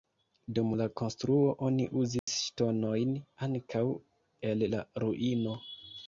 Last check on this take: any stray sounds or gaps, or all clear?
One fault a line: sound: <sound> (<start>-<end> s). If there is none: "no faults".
sound: dropout (2.2-2.3 s)